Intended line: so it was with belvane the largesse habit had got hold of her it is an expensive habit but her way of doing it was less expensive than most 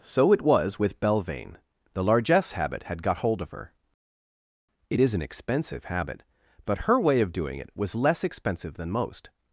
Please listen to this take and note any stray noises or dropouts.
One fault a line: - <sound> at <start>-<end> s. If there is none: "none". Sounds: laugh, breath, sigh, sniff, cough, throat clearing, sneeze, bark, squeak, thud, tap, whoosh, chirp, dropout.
none